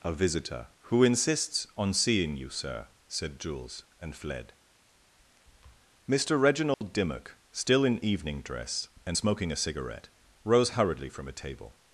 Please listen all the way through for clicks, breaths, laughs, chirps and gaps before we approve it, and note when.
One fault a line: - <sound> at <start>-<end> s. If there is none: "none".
- dropout at 6.7-6.8 s